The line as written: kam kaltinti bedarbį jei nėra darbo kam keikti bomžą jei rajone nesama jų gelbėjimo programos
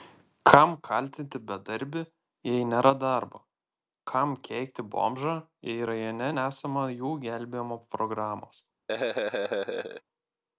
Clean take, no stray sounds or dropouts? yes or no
no